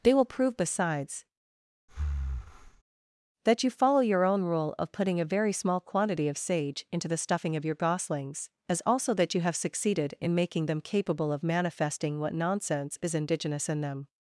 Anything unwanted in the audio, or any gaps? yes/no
yes